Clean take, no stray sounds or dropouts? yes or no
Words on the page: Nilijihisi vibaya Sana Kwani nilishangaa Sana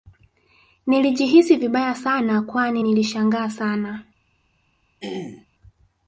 no